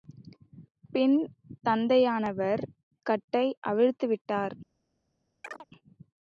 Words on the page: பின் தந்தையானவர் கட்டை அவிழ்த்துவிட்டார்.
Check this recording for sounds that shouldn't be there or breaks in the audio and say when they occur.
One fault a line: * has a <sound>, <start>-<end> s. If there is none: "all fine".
* has a chirp, 5.4-5.7 s